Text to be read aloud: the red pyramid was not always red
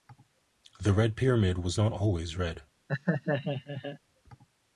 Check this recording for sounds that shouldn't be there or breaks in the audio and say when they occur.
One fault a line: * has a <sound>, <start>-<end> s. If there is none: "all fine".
* has a laugh, 2.9-4.0 s